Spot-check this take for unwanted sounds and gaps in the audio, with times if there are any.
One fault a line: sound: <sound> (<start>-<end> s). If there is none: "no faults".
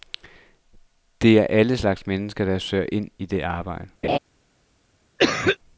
sound: laugh (4.0-4.2 s)
sound: cough (5.2-5.6 s)